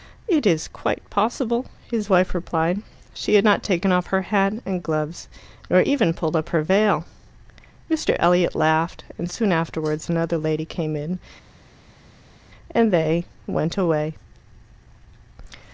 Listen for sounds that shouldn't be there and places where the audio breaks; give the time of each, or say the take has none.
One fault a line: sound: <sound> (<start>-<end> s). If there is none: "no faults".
no faults